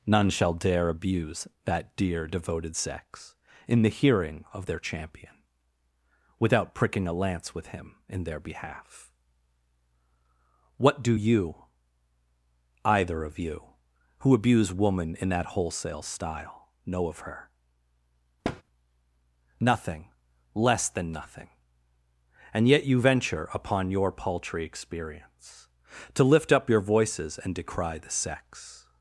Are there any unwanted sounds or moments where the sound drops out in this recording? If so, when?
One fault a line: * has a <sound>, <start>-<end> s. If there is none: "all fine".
* has a thud, 18.4-18.6 s